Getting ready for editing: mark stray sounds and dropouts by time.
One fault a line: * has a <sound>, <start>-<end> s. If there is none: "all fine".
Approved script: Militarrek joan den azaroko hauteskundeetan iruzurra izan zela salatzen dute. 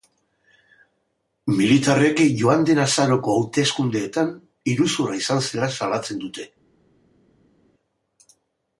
all fine